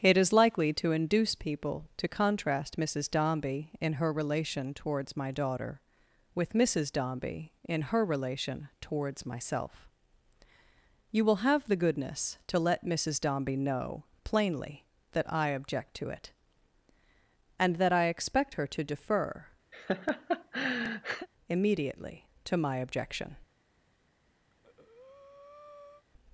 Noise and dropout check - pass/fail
fail